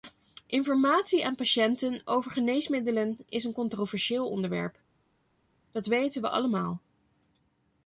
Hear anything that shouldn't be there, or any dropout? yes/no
no